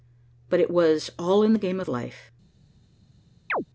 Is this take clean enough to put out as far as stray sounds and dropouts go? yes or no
no